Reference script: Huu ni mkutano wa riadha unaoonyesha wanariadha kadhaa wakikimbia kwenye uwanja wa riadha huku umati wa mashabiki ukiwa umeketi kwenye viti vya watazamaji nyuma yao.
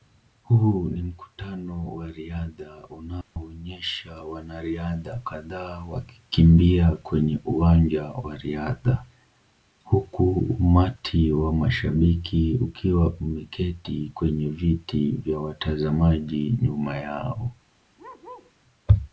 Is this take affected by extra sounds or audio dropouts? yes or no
yes